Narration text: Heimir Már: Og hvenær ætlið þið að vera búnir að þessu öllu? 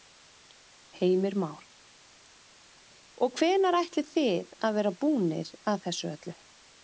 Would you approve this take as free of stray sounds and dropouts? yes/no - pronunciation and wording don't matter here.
yes